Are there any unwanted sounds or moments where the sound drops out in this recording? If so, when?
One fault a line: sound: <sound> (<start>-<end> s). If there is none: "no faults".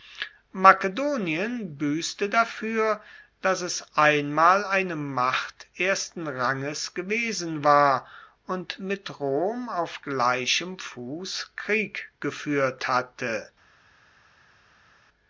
no faults